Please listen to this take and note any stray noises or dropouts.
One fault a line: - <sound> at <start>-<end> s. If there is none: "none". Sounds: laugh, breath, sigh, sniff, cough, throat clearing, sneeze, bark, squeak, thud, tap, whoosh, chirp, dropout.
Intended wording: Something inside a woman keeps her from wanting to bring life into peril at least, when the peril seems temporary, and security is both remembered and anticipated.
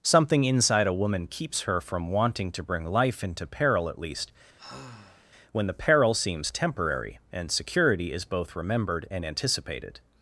- sigh at 4.6-5.3 s